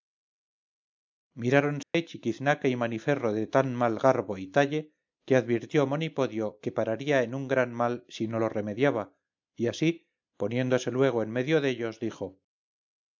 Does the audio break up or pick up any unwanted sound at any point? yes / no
yes